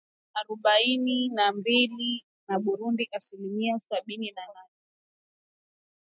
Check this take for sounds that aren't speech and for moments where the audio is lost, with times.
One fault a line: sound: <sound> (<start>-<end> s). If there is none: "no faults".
no faults